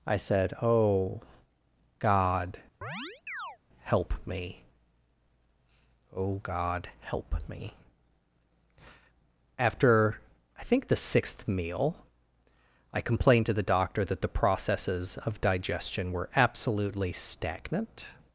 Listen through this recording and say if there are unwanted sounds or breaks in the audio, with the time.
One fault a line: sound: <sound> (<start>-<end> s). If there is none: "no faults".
sound: chirp (2.8-3.6 s)